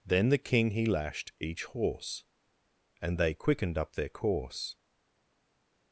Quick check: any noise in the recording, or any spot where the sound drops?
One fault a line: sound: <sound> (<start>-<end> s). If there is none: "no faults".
no faults